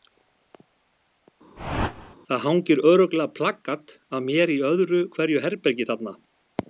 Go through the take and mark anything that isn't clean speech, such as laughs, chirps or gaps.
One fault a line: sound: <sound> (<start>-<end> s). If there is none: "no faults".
sound: whoosh (1.6-2.2 s)